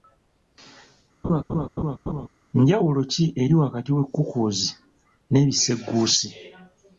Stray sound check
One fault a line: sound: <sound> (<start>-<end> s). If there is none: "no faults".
sound: laugh (1.2-2.3 s)